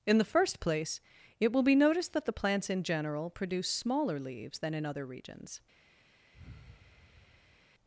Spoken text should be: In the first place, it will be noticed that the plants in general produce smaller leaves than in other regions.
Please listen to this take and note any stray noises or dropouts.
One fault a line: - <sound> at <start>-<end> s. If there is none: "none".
- sigh at 6.3-7.7 s